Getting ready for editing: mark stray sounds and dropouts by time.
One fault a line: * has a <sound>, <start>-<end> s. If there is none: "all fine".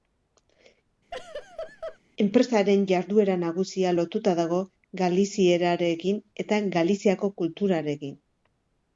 * has a laugh, 1.1-2.0 s